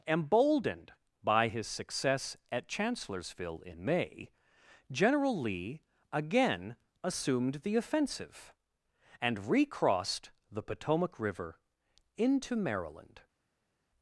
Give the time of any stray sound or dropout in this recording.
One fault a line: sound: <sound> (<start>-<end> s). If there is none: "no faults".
no faults